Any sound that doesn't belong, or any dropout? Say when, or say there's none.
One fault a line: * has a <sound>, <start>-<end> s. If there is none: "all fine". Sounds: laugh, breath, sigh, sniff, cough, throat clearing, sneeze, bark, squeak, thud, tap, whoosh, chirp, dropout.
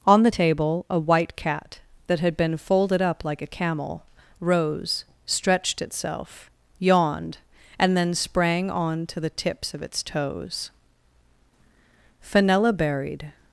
all fine